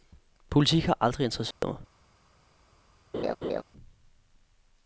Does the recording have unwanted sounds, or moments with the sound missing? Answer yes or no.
yes